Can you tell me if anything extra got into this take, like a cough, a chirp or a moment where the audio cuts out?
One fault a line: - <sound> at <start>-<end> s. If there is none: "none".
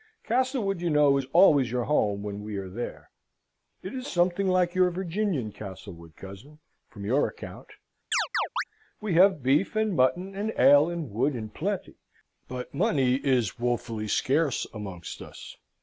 - chirp at 8.1-8.6 s